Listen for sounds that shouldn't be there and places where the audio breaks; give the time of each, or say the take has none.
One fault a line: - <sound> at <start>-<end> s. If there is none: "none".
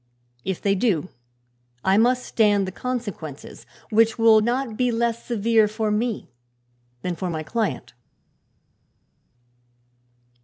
none